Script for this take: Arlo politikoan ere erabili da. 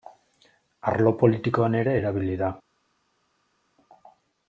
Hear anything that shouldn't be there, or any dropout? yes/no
no